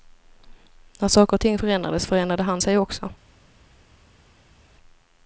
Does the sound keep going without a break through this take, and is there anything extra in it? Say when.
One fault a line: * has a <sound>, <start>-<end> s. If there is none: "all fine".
all fine